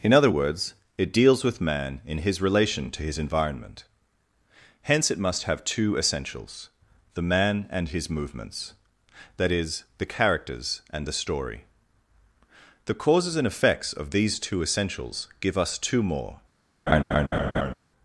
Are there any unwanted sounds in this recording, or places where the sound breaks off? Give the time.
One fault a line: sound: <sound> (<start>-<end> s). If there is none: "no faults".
sound: laugh (16.9-17.7 s)